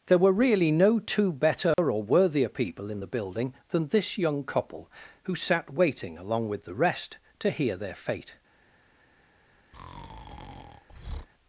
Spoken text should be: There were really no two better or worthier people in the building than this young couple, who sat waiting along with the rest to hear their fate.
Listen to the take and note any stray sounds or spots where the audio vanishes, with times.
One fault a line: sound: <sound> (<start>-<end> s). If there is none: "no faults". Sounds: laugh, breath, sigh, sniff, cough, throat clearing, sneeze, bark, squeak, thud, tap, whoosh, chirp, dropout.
sound: dropout (1.7-1.8 s)
sound: breath (9.7-11.3 s)